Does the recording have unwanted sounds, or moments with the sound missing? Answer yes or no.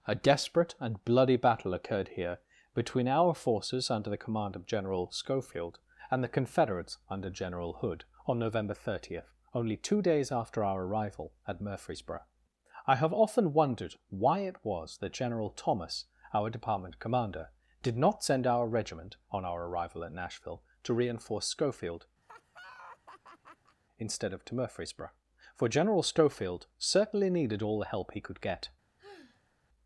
yes